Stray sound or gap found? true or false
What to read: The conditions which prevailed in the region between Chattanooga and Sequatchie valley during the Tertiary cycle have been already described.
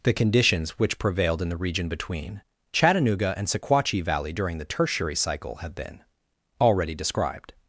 false